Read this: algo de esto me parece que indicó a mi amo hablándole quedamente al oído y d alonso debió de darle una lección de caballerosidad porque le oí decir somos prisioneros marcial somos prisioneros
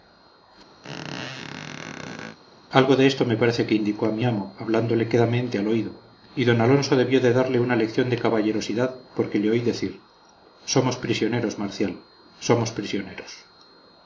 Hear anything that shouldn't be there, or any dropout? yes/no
yes